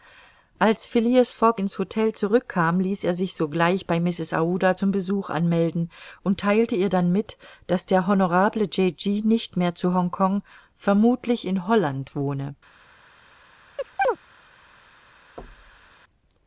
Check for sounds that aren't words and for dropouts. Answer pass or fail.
fail